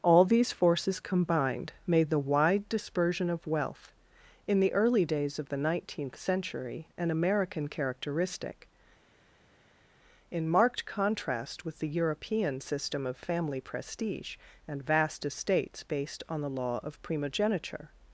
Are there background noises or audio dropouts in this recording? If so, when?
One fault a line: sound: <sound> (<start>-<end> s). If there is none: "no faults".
no faults